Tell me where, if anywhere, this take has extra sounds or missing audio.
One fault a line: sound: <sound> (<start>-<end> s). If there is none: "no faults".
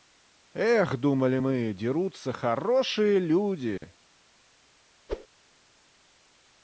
sound: dropout (3.8-3.8 s)
sound: whoosh (5.1-5.3 s)